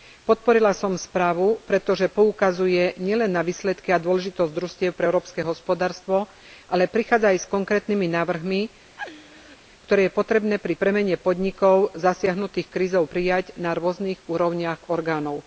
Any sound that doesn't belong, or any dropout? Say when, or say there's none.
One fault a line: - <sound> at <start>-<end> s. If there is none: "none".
- laugh at 9.0-9.6 s